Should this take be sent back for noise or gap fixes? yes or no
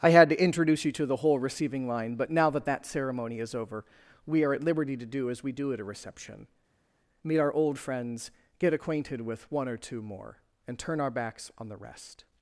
no